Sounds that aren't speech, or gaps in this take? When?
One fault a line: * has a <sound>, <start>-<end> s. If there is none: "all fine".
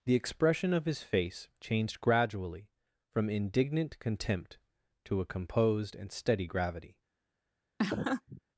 * has a laugh, 7.8-8.4 s